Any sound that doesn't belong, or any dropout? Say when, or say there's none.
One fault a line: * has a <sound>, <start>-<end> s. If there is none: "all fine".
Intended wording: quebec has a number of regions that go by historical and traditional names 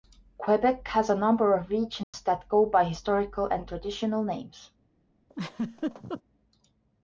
* has a dropout, 2.0-2.1 s
* has a laugh, 5.3-6.2 s